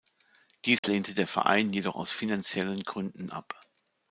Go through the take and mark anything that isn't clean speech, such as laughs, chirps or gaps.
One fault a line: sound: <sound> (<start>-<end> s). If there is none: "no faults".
sound: dropout (0.8-0.8 s)